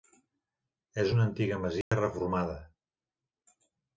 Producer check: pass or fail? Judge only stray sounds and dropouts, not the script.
fail